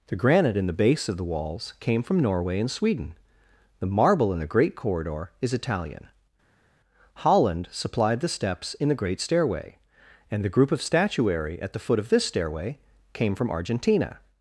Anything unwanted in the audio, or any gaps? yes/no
no